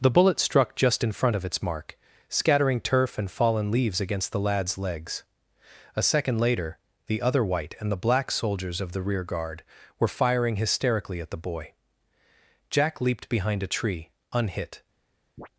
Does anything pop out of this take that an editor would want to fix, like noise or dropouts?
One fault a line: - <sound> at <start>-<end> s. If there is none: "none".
- chirp at 15.4-15.5 s